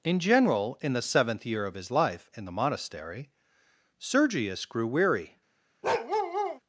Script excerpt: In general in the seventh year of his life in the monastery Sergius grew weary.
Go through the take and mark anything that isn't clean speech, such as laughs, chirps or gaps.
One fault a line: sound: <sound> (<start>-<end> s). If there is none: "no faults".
sound: bark (5.8-6.6 s)